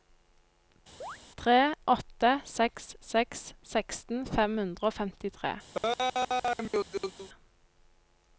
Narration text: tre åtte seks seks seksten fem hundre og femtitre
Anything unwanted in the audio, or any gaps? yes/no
yes